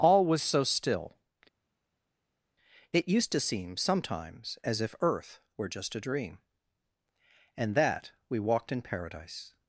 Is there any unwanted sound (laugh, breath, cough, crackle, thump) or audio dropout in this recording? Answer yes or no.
no